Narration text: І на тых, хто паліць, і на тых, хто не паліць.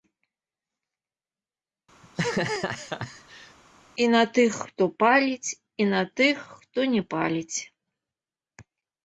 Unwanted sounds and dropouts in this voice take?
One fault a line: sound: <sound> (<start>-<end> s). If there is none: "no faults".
sound: laugh (2.0-3.6 s)